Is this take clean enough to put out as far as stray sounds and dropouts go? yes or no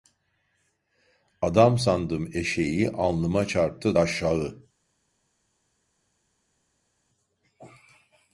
yes